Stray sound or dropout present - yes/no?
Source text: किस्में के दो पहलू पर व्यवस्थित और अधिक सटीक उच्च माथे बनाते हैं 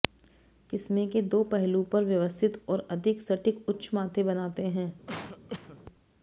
yes